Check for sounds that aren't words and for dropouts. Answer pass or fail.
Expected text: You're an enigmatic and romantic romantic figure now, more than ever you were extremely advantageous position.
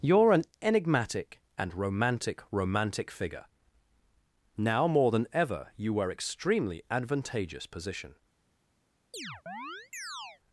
fail